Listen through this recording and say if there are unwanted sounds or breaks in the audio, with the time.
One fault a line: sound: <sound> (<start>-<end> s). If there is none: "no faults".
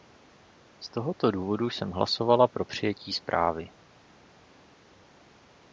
no faults